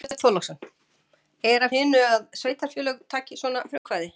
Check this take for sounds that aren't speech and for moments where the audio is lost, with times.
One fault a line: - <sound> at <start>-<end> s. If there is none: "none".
- dropout at 3.8-3.8 s